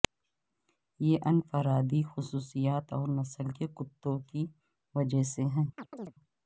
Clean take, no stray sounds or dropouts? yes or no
no